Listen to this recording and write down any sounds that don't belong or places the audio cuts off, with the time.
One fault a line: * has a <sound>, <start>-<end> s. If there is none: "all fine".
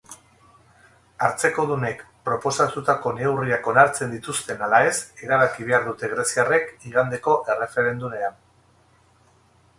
all fine